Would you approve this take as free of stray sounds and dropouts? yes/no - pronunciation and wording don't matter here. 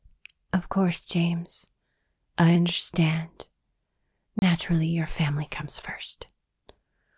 no